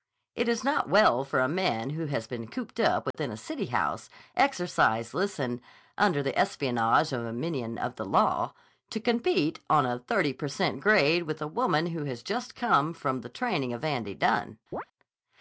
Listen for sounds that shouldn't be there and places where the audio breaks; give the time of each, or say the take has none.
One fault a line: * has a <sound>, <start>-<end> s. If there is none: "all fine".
* has a dropout, 3.1-3.1 s
* has a chirp, 14.7-14.8 s